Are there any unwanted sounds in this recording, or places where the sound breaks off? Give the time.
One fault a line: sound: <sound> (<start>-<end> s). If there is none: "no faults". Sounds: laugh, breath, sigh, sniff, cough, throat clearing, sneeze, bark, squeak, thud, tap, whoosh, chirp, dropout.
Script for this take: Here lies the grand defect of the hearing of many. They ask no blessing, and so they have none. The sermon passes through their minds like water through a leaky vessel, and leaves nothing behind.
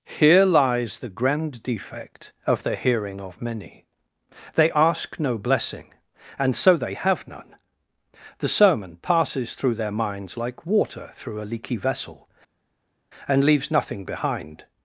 no faults